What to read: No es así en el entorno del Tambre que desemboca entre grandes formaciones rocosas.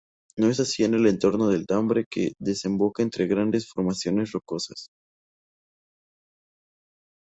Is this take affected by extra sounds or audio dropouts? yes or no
no